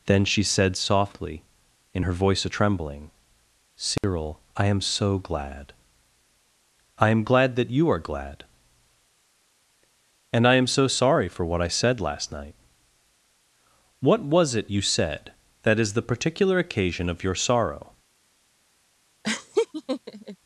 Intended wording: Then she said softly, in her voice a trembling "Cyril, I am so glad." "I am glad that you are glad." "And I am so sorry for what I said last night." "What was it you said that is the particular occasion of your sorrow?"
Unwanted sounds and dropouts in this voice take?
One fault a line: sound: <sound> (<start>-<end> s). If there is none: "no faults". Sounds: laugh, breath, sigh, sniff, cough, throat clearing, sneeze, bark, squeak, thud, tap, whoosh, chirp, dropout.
sound: dropout (4.0-4.0 s)
sound: laugh (19.2-20.4 s)